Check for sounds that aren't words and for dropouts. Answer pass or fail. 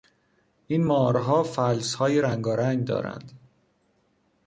pass